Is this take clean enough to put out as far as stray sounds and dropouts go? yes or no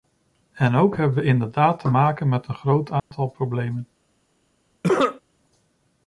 no